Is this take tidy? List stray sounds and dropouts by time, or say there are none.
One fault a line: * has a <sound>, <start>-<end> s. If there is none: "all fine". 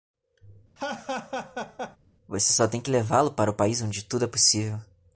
* has a laugh, 0.8-2.0 s